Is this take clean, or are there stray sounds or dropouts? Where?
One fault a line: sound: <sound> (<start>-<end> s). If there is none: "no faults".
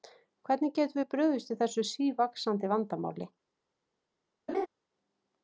sound: laugh (4.5-4.7 s)